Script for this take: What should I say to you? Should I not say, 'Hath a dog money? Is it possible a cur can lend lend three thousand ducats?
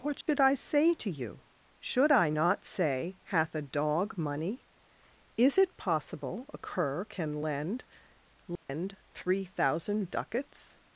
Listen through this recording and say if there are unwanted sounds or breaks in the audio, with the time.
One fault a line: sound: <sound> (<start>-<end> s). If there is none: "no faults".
sound: dropout (0.2-0.3 s)
sound: dropout (8.6-8.7 s)